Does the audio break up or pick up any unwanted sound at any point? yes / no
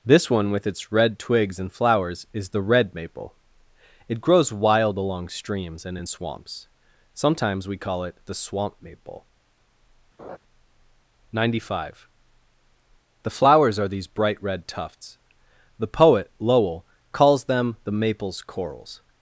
yes